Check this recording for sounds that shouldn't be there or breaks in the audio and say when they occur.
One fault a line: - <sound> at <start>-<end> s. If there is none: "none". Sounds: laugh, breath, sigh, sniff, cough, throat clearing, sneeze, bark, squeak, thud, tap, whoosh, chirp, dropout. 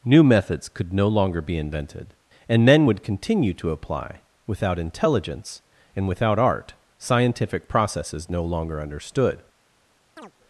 - chirp at 10.2-10.3 s